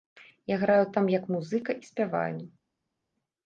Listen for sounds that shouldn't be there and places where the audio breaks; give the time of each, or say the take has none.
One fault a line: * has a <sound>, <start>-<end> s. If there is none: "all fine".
all fine